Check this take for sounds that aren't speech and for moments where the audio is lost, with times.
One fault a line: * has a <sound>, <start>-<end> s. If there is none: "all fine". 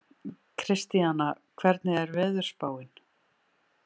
all fine